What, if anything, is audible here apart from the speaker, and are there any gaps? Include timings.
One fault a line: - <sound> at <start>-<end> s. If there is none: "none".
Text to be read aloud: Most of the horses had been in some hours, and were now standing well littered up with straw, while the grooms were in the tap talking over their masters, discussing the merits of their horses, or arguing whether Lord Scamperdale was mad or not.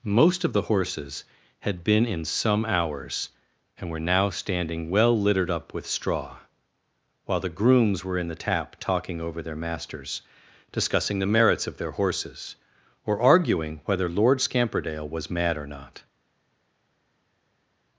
none